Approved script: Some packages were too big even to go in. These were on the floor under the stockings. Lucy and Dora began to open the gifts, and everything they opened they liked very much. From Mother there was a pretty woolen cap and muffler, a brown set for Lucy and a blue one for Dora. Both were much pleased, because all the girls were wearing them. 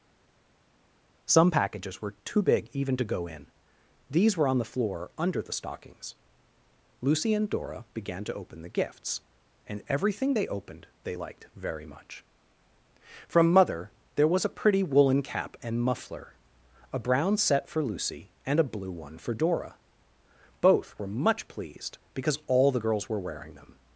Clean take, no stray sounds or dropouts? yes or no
yes